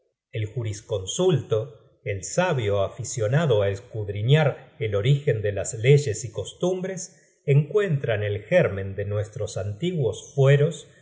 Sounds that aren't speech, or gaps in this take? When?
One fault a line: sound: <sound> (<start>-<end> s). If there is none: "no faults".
no faults